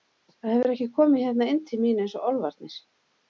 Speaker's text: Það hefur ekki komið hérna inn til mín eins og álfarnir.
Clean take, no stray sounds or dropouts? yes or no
yes